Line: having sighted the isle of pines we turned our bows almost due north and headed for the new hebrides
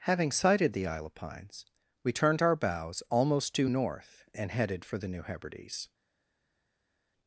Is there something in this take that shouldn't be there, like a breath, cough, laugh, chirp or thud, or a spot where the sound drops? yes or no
no